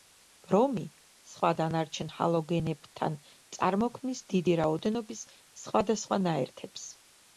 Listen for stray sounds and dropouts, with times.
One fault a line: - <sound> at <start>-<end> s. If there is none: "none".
none